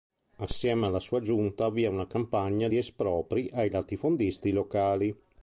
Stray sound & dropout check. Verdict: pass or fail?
pass